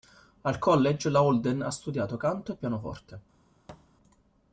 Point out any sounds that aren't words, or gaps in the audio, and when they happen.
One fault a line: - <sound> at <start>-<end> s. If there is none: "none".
- thud at 3.7-3.9 s